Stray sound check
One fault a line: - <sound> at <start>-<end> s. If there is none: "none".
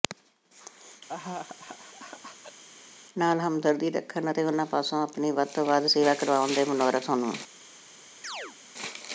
- laugh at 1.1-2.6 s
- chirp at 8.2-8.6 s